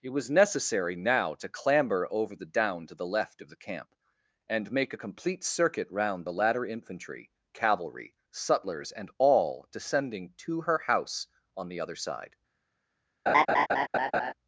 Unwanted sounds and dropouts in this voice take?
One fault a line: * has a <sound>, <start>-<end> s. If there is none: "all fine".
* has a laugh, 13.3-14.3 s